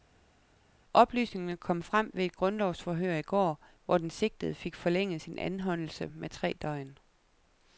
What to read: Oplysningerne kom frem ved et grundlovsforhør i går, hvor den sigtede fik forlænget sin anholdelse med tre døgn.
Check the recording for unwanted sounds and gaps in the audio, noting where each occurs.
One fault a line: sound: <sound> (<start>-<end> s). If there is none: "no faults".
no faults